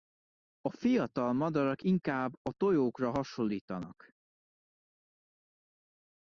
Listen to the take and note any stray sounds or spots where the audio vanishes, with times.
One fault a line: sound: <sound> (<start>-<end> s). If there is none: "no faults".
no faults